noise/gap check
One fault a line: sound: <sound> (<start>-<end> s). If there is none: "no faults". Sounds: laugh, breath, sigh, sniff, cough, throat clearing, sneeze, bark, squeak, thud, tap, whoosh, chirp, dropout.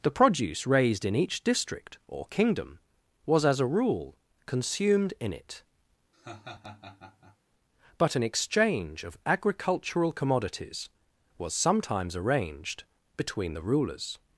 sound: laugh (6.1-7.4 s)